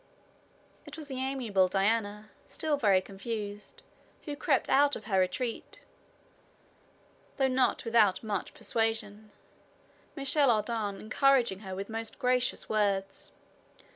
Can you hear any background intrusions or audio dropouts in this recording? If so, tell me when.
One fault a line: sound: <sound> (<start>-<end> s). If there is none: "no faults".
no faults